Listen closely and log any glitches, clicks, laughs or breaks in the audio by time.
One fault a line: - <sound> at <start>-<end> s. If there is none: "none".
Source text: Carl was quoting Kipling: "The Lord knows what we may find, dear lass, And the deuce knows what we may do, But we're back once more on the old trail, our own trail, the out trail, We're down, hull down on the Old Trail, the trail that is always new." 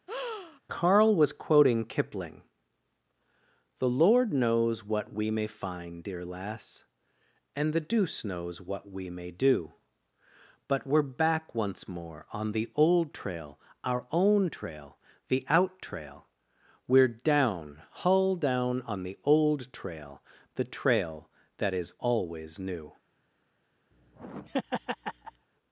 - breath at 0.1-0.6 s
- laugh at 23.9-25.5 s